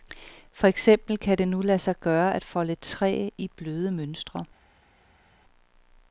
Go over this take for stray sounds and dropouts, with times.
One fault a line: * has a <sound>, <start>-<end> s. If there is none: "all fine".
all fine